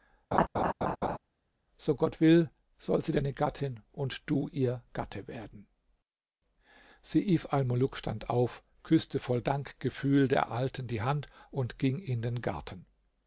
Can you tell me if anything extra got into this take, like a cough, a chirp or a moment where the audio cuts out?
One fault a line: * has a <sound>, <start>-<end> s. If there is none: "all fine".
* has a laugh, 0.3-1.2 s